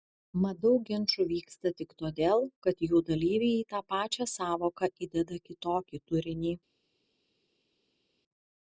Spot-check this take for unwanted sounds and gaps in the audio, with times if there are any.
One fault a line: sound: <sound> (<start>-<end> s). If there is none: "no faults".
no faults